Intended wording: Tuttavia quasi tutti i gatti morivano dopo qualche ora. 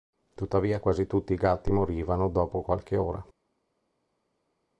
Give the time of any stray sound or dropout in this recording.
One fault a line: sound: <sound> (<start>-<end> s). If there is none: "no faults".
no faults